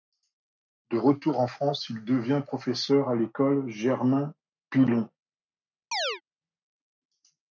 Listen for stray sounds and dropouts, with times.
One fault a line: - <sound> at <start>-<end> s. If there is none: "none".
- chirp at 5.9-6.2 s